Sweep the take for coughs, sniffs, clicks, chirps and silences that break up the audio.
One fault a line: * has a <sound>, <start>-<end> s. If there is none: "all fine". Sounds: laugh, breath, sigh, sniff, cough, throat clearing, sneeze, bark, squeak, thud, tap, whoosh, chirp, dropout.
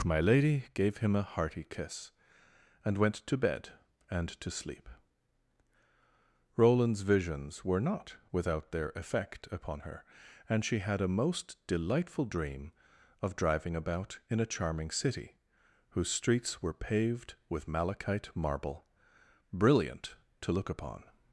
all fine